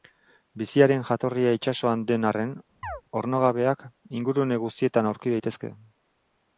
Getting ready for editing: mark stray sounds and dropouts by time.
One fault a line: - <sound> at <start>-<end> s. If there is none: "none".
- chirp at 2.8-3.0 s